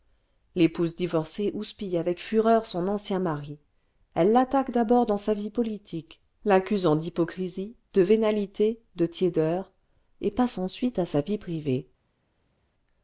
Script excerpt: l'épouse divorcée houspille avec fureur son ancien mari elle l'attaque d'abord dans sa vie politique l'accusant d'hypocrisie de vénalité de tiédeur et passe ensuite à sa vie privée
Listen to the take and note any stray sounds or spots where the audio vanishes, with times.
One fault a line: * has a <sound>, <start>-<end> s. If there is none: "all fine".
all fine